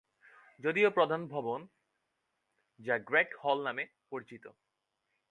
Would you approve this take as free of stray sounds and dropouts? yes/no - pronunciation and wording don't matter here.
yes